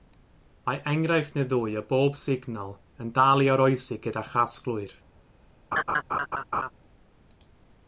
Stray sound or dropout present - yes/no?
yes